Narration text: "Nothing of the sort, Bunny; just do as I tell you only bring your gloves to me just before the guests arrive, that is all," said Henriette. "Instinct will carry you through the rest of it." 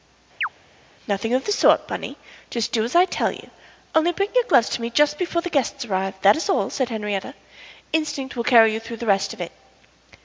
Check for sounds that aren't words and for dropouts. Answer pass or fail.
fail